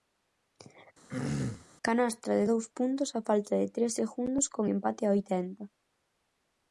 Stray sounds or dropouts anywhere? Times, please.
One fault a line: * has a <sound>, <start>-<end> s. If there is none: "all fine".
* has a throat clearing, 1.1-1.7 s